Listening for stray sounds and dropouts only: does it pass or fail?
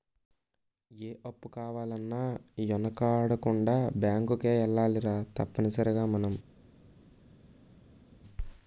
pass